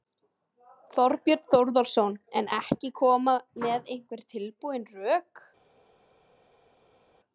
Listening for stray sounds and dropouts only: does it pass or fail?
pass